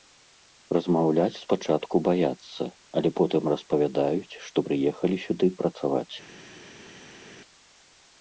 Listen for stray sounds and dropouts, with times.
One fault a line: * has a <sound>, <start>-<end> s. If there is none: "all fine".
all fine